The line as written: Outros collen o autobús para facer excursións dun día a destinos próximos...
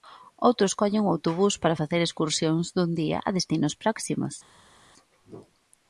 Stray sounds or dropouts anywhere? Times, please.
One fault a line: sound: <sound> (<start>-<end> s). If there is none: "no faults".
no faults